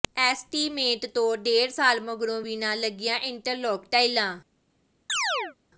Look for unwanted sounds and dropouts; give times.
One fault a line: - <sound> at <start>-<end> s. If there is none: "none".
- chirp at 5.1-5.6 s